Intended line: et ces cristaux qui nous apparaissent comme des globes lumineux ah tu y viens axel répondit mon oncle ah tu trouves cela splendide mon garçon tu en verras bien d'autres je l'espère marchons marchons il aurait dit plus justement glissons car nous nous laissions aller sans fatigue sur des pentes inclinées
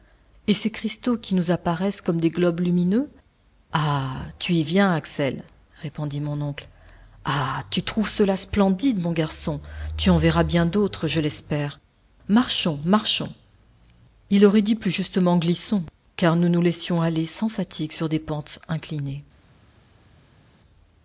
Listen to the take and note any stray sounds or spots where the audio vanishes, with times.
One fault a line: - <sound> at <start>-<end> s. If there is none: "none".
none